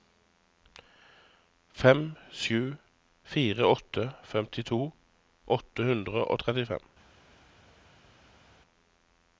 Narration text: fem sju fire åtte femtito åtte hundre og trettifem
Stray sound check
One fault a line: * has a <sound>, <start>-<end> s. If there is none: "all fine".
all fine